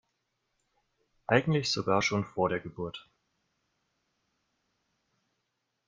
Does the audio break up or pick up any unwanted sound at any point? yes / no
no